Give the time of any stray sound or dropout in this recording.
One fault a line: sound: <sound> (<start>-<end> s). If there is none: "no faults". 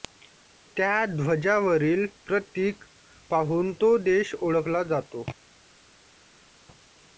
no faults